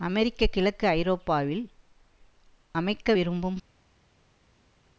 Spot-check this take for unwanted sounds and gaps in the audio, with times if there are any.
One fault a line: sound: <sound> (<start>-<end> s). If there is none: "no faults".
no faults